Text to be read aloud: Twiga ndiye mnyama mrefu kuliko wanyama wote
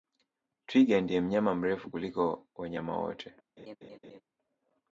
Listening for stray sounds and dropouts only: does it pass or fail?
fail